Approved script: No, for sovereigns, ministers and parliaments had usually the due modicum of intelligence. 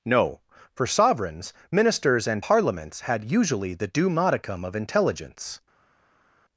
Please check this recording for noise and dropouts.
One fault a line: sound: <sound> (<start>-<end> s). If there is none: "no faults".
no faults